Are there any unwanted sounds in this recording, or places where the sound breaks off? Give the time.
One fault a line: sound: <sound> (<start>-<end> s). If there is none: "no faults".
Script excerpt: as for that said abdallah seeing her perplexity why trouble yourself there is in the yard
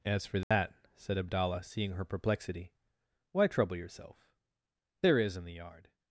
sound: dropout (0.4-0.5 s)